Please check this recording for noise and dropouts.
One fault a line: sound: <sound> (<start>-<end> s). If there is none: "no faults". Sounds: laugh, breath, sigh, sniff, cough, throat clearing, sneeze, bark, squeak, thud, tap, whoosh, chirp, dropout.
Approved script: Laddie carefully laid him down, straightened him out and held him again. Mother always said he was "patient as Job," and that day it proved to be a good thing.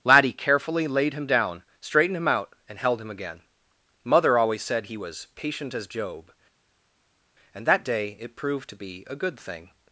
no faults